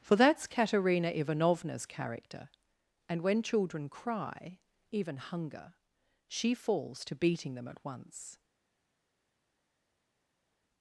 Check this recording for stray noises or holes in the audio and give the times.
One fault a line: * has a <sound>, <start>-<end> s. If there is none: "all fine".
all fine